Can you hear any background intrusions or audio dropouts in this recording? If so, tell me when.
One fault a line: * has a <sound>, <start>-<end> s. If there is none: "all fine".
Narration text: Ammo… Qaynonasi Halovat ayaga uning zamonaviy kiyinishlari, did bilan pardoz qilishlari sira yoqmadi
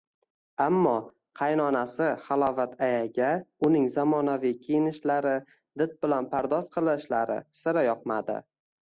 all fine